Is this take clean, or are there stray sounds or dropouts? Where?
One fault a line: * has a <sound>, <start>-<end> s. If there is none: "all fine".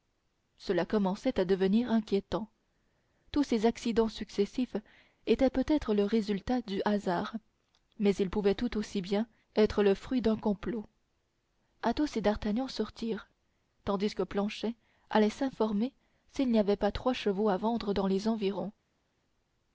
all fine